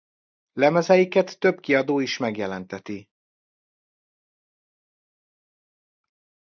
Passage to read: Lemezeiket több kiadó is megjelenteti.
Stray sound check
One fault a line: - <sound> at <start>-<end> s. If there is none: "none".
none